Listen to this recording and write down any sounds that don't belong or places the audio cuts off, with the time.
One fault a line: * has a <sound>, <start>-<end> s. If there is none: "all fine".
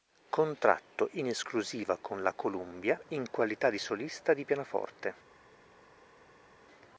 all fine